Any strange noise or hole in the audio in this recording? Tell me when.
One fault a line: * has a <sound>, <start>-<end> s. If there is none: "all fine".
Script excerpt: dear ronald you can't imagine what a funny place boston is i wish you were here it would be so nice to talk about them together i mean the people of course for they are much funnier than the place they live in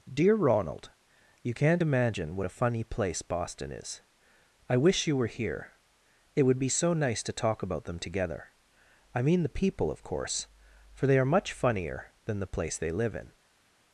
all fine